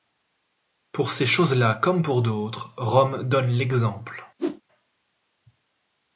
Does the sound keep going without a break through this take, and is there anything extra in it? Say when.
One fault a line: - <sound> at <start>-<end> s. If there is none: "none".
- whoosh at 4.4-4.6 s